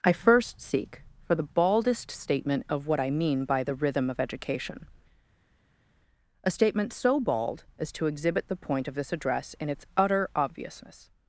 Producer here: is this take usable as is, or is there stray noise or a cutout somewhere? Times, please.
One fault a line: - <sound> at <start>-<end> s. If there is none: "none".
none